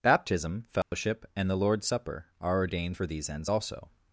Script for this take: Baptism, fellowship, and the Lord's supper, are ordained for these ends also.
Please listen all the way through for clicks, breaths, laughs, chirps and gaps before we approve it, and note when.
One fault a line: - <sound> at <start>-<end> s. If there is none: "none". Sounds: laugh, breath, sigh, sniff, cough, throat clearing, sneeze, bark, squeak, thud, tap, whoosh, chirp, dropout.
- dropout at 0.8-0.9 s